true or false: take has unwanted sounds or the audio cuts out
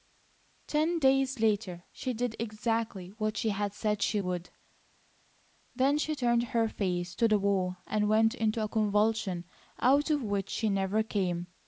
false